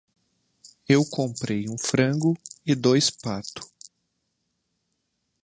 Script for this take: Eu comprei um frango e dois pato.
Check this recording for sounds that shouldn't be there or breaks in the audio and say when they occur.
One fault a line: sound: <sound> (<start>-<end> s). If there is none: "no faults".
no faults